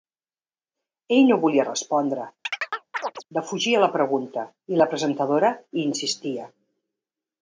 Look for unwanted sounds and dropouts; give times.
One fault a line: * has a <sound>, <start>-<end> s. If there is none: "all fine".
* has a chirp, 2.4-3.2 s